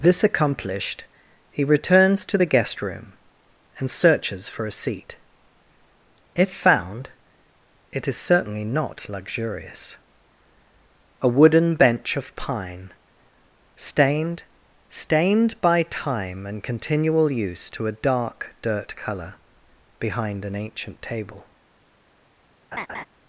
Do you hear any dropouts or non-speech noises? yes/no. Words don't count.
yes